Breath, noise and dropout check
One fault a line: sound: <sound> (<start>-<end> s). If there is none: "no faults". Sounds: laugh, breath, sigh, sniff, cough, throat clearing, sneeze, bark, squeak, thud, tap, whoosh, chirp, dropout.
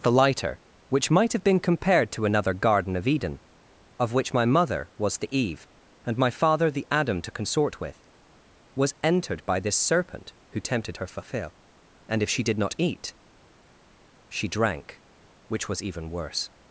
no faults